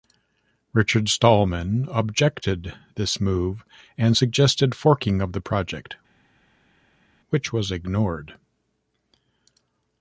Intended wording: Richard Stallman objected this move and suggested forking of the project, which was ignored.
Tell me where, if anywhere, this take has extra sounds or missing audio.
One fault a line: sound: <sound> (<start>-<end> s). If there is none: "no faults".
no faults